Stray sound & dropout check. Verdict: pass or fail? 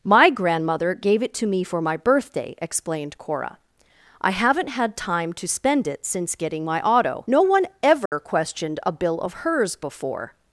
fail